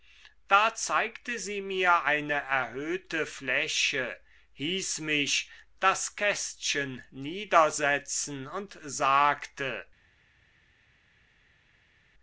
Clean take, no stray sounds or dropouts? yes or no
yes